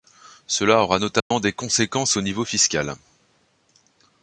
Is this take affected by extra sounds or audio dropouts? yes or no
yes